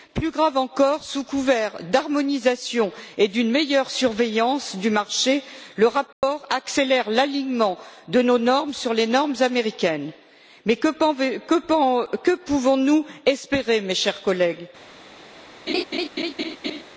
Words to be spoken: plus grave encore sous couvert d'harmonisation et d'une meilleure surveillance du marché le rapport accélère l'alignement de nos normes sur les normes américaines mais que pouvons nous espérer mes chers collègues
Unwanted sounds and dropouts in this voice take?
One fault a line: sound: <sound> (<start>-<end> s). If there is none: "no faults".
sound: dropout (6.1-6.2 s)
sound: laugh (15.7-16.8 s)